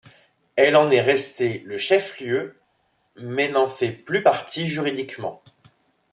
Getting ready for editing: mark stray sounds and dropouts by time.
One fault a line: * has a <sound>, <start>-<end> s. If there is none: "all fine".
all fine